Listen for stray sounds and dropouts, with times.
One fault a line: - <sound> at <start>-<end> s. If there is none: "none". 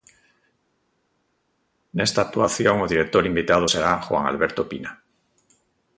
none